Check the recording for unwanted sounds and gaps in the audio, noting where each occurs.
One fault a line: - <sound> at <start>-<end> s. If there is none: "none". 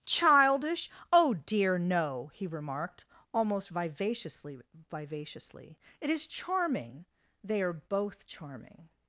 none